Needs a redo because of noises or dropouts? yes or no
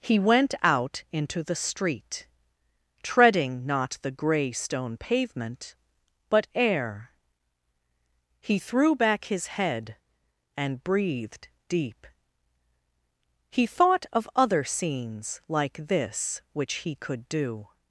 no